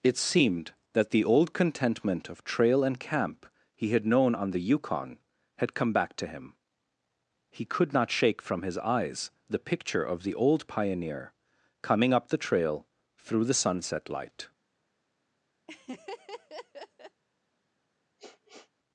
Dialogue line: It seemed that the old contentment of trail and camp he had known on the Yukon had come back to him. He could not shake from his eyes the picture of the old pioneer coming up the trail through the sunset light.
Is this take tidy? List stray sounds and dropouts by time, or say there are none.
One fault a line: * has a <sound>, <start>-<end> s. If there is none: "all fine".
* has a laugh, 15.7-17.2 s
* has a sniff, 18.2-18.7 s